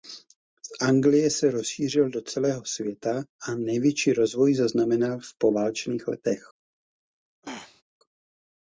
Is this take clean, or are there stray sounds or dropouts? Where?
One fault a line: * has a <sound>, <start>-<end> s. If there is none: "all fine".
* has a throat clearing, 7.4-7.8 s